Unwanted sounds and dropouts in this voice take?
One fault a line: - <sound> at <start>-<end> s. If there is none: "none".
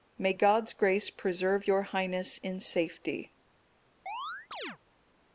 - chirp at 4.1-4.8 s